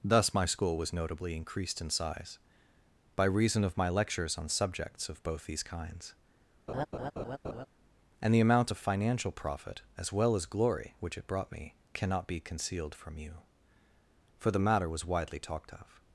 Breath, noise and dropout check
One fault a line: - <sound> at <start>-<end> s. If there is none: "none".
- laugh at 6.7-7.7 s